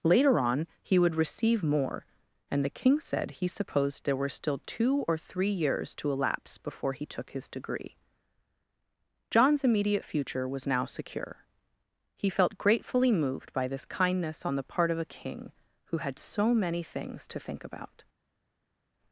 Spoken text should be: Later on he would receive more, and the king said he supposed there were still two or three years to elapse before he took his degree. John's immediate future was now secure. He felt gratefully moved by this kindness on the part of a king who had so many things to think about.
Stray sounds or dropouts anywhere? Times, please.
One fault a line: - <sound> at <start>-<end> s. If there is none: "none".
none